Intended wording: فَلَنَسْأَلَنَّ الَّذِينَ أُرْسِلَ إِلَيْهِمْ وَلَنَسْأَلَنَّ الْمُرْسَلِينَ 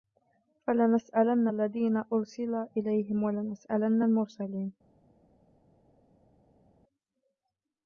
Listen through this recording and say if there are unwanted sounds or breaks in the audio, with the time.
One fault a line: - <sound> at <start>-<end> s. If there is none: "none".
none